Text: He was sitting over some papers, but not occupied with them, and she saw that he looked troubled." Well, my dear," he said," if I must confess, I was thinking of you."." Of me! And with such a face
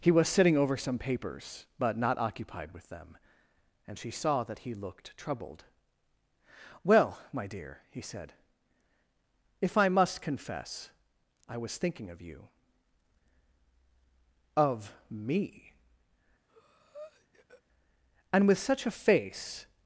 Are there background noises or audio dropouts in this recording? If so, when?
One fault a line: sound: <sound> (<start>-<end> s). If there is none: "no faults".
sound: breath (16.5-17.6 s)